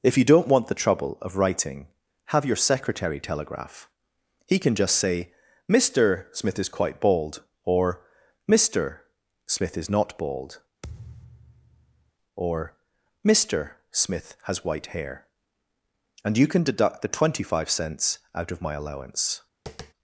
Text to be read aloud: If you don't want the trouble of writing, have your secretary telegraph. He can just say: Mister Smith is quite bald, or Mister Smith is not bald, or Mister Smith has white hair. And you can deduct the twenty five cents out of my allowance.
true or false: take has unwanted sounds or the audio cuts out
true